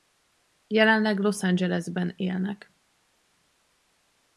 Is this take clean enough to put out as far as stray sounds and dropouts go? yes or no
yes